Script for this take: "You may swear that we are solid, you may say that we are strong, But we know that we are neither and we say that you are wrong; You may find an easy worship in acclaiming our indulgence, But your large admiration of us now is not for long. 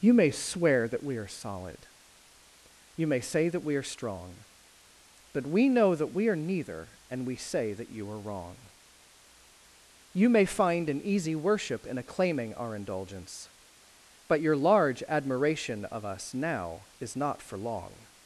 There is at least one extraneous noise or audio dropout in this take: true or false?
false